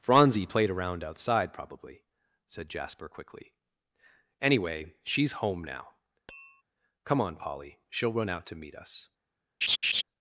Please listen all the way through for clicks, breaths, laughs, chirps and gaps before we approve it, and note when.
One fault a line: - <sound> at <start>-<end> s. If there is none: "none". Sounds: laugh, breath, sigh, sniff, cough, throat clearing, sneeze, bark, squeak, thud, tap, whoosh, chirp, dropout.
- tap at 6.3-6.6 s
- laugh at 9.6-10.0 s